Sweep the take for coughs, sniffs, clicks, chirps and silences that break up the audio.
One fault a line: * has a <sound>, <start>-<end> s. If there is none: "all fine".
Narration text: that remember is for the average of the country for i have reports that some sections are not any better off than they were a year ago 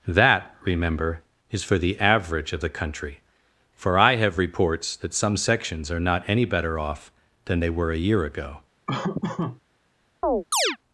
* has a laugh, 8.9-9.6 s
* has a chirp, 10.2-10.8 s